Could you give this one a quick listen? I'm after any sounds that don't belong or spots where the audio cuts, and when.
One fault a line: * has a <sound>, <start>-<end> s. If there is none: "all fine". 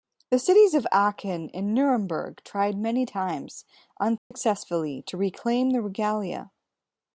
* has a dropout, 4.2-4.3 s